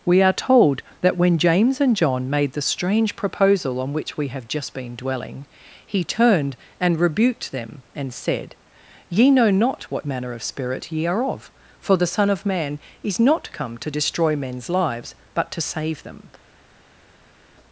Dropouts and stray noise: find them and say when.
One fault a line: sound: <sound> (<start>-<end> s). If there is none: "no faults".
no faults